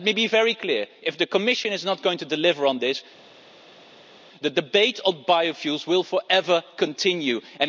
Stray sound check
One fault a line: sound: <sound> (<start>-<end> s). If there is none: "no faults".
no faults